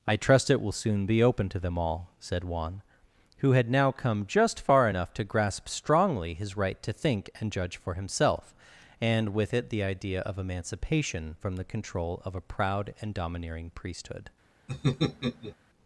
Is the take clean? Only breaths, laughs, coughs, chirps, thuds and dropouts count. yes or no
no